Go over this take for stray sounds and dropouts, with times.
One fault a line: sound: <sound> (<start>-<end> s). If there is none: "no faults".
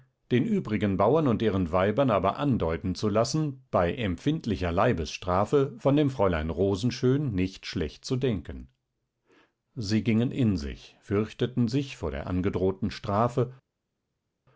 no faults